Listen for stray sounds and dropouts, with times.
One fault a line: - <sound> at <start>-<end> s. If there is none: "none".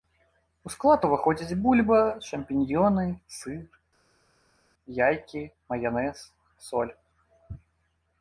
none